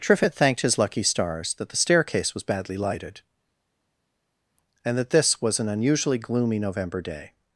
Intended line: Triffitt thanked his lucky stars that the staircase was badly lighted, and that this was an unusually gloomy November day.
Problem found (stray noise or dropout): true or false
false